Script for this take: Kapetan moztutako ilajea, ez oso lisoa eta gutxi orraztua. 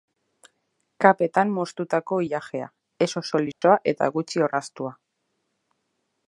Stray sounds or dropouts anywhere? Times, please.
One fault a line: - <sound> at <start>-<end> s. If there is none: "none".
- dropout at 3.5-3.6 s